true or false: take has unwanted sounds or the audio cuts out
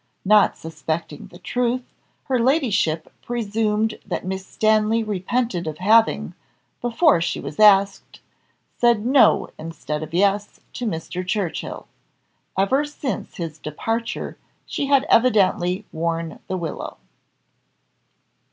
false